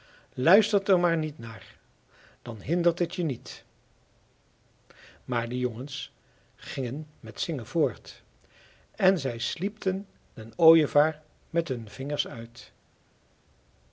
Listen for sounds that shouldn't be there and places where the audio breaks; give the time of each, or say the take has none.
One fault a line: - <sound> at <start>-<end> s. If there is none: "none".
none